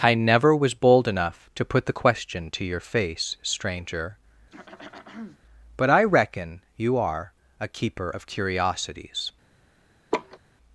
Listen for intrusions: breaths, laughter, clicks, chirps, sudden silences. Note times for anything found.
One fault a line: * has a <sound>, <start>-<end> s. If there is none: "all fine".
* has a throat clearing, 4.5-5.4 s
* has a laugh, 10.1-10.4 s